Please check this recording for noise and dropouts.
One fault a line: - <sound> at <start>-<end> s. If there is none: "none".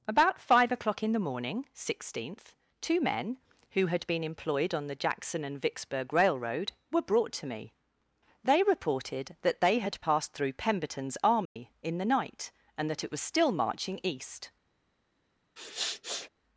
- dropout at 11.5-11.6 s
- sniff at 15.6-16.3 s